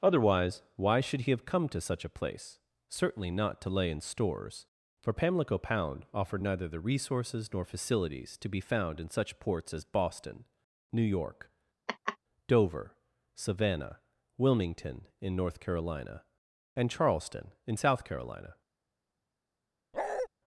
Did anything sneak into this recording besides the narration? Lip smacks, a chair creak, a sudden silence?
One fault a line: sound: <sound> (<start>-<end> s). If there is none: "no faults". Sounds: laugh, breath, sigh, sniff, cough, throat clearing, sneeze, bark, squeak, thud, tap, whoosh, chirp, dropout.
sound: laugh (11.9-12.2 s)
sound: bark (19.9-20.3 s)